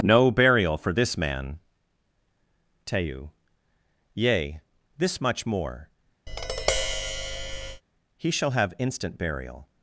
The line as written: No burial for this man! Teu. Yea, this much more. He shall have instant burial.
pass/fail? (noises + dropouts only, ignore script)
fail